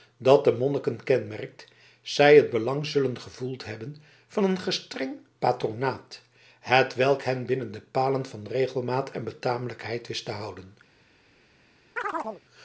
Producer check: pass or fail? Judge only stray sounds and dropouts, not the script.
fail